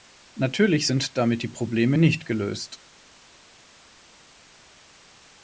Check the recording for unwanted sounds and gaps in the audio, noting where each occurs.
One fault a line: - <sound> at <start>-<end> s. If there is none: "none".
none